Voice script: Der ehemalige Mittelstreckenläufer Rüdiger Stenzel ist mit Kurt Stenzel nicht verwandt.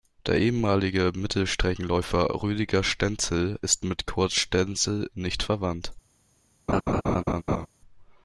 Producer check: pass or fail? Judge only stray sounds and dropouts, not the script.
fail